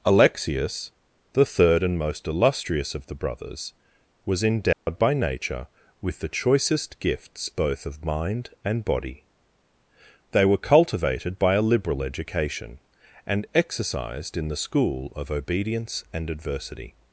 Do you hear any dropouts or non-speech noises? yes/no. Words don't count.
yes